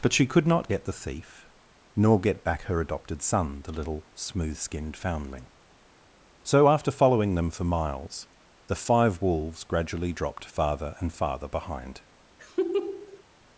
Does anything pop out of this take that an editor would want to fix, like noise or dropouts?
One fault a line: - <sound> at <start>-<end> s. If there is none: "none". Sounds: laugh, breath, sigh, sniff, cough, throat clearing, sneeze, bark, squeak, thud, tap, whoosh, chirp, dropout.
- laugh at 12.4-13.2 s